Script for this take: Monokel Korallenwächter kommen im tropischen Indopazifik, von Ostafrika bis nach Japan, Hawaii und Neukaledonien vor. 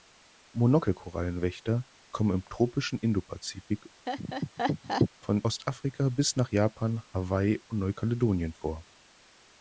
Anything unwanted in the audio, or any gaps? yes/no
yes